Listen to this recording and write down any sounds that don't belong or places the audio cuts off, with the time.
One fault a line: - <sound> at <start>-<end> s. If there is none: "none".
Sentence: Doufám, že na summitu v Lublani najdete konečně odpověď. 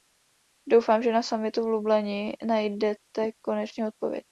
none